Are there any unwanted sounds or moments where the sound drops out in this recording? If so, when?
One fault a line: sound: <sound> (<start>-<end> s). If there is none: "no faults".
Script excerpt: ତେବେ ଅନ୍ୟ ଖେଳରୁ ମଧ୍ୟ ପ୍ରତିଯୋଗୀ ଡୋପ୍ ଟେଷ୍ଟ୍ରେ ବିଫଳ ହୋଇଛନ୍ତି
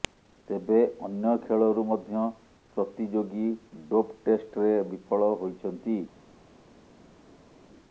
no faults